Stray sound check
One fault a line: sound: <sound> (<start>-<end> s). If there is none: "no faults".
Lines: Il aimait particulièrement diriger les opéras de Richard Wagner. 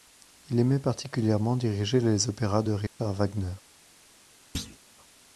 sound: dropout (2.9-3.0 s)
sound: thud (4.5-4.8 s)